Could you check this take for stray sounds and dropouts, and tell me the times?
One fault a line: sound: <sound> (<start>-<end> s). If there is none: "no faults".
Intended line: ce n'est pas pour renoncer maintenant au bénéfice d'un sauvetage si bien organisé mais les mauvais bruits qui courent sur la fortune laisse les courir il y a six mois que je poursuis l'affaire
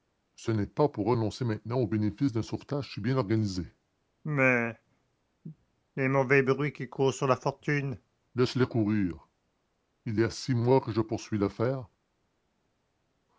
no faults